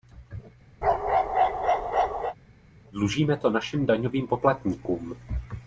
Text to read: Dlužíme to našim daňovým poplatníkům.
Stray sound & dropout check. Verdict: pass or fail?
fail